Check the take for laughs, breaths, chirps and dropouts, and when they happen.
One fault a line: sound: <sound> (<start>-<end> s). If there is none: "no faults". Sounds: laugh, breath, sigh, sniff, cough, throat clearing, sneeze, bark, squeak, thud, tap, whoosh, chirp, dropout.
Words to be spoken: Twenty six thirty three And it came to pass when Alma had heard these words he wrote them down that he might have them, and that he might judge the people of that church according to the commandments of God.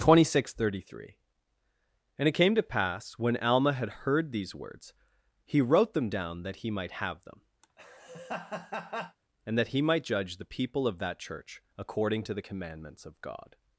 sound: laugh (7.6-9.2 s)